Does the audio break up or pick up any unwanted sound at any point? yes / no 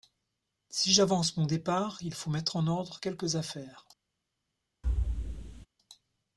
yes